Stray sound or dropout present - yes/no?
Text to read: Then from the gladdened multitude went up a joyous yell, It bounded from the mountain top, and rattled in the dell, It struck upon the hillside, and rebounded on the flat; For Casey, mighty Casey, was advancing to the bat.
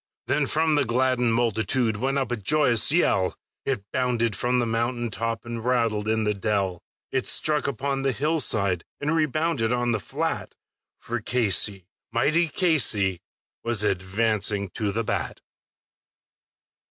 no